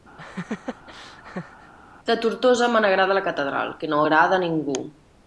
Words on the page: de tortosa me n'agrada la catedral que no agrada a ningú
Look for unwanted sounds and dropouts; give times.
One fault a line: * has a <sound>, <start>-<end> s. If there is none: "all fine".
* has a laugh, 0.2-1.7 s